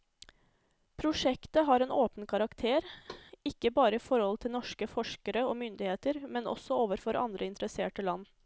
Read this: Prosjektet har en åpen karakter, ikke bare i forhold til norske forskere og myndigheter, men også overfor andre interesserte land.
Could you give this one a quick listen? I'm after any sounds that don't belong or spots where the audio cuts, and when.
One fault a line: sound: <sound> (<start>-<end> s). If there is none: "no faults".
sound: thud (3.1-3.3 s)